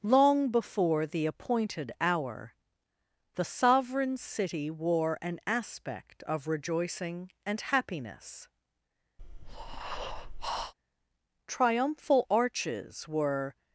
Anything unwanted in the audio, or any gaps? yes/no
yes